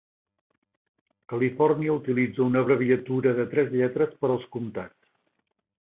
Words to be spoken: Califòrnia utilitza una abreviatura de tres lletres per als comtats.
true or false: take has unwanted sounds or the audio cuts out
false